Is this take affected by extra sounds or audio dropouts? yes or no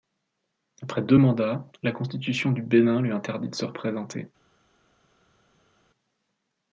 no